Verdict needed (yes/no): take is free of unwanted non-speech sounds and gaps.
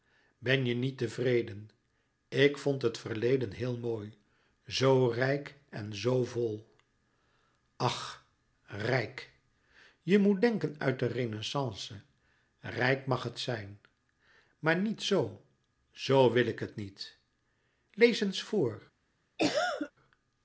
no